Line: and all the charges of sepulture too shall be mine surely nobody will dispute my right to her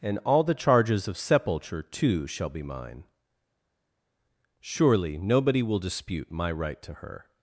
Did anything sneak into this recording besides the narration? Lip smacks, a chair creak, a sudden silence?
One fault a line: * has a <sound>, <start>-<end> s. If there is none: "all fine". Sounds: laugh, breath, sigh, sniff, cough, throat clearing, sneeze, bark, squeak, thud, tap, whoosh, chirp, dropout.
all fine